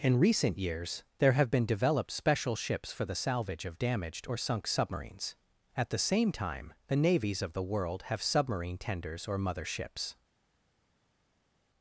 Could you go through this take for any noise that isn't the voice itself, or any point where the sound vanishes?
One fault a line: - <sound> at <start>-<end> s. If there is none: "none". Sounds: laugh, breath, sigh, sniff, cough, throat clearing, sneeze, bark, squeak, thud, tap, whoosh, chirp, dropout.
none